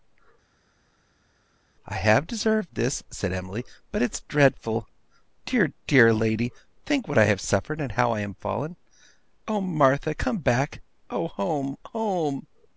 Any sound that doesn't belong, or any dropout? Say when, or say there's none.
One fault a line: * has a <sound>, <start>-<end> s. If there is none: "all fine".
all fine